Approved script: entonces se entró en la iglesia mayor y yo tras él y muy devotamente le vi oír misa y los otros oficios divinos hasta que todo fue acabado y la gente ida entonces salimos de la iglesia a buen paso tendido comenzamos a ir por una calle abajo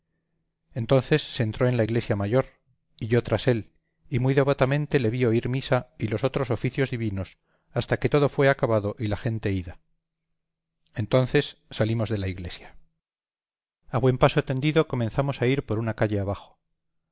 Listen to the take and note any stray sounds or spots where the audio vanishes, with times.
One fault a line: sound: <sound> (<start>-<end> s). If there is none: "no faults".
no faults